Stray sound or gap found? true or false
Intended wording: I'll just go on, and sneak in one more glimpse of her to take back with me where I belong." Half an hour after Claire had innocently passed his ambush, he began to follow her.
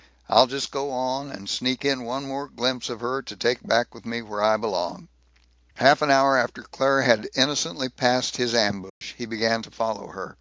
true